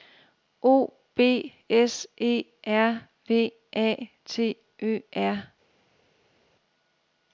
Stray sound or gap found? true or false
false